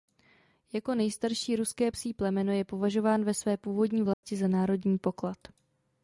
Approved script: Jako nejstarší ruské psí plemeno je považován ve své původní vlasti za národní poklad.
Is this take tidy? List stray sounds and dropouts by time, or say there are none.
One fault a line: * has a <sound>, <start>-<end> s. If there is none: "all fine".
* has a dropout, 4.1-4.2 s